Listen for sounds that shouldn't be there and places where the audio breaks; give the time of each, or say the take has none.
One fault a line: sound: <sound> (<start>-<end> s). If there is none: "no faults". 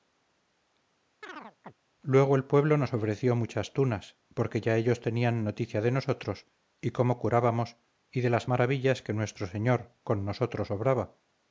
sound: chirp (1.2-1.7 s)